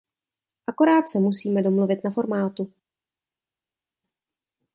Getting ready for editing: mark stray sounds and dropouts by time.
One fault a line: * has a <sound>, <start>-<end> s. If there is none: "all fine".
all fine